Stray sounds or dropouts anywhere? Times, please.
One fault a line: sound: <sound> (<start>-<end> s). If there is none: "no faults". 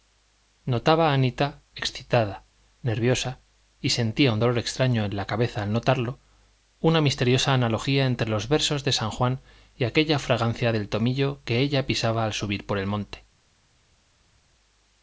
no faults